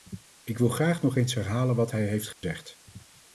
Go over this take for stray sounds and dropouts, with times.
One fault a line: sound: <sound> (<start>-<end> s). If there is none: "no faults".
sound: dropout (2.3-2.4 s)